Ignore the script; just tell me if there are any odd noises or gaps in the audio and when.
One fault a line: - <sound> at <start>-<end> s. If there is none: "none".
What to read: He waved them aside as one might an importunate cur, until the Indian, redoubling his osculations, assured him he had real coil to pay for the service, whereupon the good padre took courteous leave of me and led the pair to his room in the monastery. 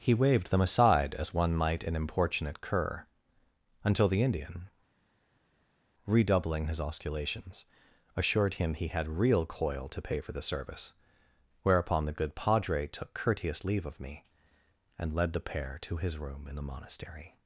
none